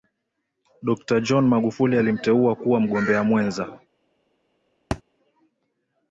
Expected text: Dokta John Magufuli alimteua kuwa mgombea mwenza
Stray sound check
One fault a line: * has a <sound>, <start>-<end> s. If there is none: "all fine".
* has a thud, 4.9-5.0 s